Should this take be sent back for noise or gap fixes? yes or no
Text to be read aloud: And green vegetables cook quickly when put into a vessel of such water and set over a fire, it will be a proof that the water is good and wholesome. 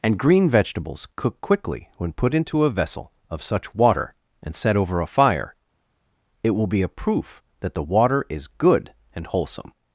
no